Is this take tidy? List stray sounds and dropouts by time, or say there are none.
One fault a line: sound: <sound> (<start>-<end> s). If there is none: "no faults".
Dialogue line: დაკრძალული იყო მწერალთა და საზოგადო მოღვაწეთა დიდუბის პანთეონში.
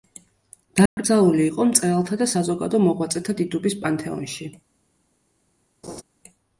sound: dropout (0.9-1.0 s)
sound: laugh (5.8-6.0 s)